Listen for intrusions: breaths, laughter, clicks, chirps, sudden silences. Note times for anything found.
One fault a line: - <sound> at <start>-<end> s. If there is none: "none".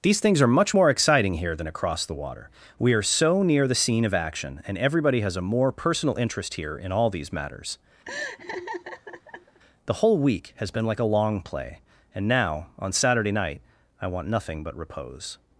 - laugh at 8.0-9.6 s